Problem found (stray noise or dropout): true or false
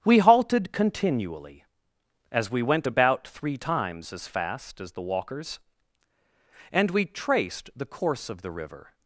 false